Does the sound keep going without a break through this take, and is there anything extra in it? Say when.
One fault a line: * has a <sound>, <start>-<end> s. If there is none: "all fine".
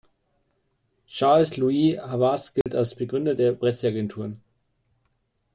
* has a dropout, 2.6-2.7 s